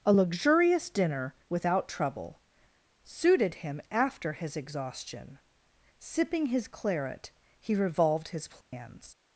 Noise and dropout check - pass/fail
fail